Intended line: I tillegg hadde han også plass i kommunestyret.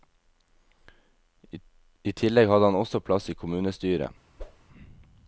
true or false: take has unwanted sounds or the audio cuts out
true